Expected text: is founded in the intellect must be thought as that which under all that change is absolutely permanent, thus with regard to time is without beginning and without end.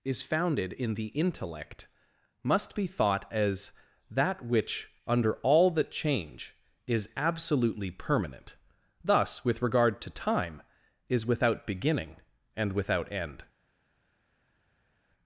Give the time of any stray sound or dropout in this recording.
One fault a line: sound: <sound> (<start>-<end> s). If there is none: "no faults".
no faults